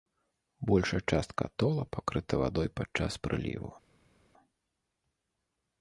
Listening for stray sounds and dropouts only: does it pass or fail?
pass